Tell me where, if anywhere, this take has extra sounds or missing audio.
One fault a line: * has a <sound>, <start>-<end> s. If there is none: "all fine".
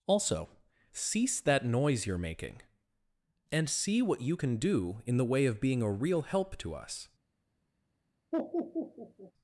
* has a laugh, 8.3-9.3 s